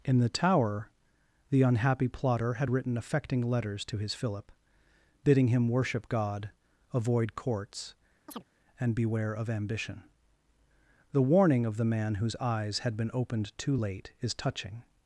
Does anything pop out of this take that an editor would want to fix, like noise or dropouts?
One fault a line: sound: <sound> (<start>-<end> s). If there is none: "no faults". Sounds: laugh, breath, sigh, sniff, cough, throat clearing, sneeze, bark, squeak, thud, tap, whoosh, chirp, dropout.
sound: chirp (8.3-8.4 s)